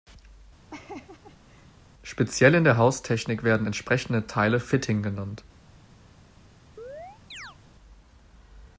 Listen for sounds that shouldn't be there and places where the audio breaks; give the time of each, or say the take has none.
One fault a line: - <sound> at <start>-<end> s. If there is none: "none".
- laugh at 0.7-1.8 s
- chirp at 6.8-7.6 s